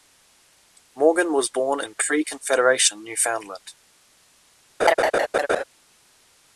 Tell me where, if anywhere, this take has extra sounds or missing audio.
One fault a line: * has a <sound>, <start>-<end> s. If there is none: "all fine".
* has a laugh, 4.8-5.6 s